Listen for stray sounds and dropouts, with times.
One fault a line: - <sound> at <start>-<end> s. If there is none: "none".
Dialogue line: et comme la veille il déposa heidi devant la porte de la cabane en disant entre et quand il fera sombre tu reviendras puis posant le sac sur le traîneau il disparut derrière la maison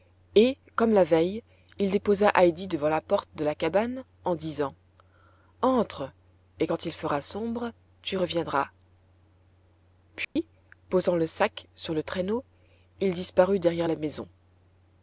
- dropout at 10.2-10.4 s